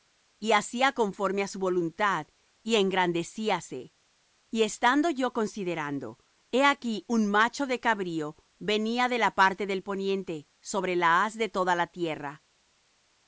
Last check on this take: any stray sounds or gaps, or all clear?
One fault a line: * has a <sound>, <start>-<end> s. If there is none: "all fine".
all fine